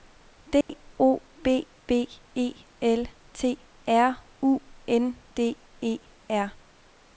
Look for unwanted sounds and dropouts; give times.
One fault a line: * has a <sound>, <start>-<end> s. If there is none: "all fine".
* has a dropout, 0.6-0.7 s